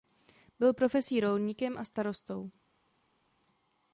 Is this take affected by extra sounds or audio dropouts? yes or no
no